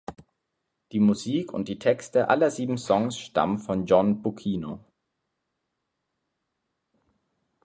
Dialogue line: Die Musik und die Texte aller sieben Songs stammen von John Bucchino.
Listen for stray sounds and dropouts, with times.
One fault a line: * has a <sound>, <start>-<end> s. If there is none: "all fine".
all fine